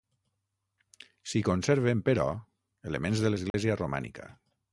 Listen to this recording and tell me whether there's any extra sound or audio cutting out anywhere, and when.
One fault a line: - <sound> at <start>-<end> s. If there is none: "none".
- dropout at 3.5-3.5 s